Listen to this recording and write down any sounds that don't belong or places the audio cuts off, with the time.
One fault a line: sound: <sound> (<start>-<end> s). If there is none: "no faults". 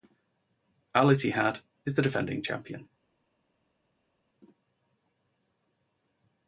no faults